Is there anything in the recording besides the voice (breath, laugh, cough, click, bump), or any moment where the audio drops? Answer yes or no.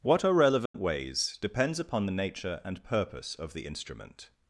yes